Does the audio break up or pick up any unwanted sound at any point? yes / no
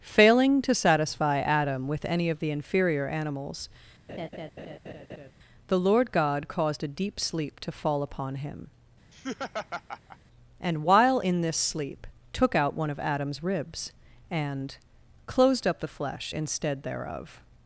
yes